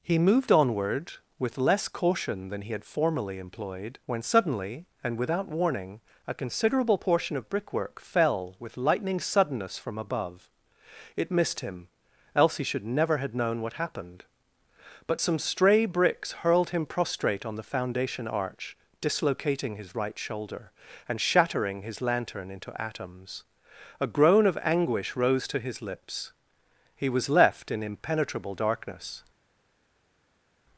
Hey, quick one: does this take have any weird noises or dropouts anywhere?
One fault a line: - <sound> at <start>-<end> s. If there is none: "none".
none